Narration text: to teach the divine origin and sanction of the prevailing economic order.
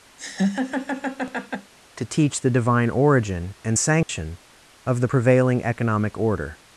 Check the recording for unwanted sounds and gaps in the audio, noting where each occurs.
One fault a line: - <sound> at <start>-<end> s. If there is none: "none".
- laugh at 0.2-1.7 s
- dropout at 4.0-4.1 s